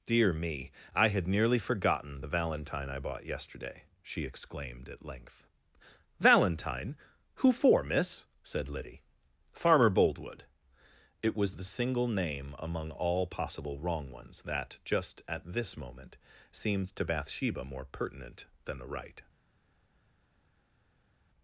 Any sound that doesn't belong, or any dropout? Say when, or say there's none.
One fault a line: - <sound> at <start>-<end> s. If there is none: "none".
none